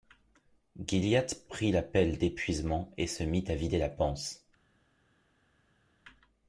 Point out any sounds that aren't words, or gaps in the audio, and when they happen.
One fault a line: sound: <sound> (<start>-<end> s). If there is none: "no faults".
no faults